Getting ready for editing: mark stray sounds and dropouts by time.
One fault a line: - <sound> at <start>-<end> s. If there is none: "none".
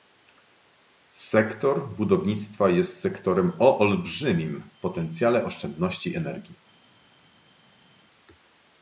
none